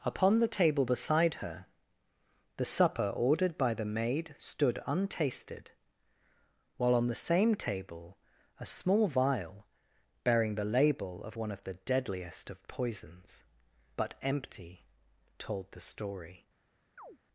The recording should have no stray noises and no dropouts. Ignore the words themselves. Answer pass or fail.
fail